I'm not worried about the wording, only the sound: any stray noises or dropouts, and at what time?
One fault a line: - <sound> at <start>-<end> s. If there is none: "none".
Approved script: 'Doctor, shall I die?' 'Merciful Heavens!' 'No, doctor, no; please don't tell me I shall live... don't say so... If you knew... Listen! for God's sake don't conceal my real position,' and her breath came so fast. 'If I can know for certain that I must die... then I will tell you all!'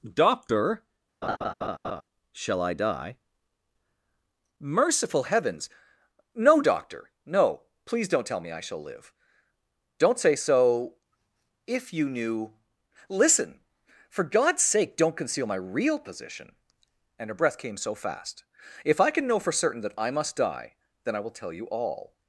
- laugh at 1.2-2.0 s